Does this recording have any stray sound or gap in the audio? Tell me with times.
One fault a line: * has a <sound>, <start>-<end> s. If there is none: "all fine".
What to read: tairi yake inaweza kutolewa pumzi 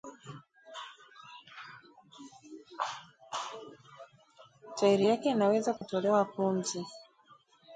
* has a dropout, 5.8-5.8 s